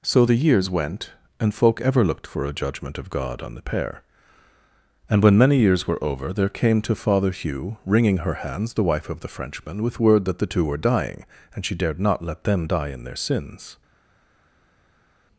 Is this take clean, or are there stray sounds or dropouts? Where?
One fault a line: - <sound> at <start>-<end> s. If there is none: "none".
none